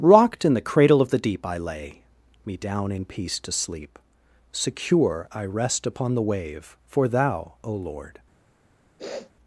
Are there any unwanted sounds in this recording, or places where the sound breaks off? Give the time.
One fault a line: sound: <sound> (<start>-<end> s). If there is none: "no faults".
sound: sniff (9.0-9.3 s)